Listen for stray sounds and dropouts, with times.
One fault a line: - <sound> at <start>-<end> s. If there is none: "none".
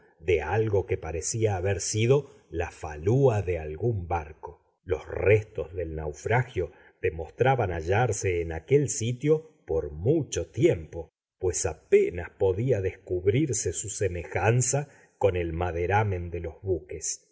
none